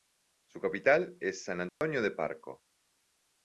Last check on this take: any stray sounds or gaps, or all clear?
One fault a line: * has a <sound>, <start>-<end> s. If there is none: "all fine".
* has a dropout, 1.7-1.8 s